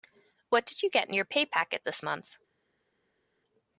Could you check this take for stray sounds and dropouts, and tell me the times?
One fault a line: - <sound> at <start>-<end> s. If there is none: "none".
none